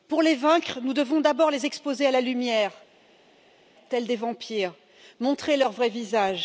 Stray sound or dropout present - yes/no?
no